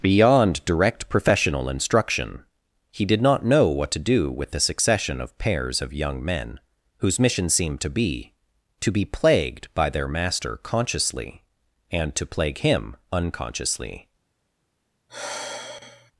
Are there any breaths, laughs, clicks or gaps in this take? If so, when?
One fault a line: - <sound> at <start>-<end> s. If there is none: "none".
- sigh at 15.1-16.1 s